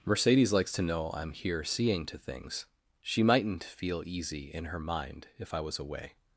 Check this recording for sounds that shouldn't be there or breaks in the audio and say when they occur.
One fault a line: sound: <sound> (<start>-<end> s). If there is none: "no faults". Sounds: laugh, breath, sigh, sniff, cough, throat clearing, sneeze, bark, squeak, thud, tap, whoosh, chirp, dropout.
no faults